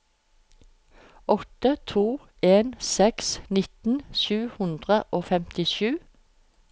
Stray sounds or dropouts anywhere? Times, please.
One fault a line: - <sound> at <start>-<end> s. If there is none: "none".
none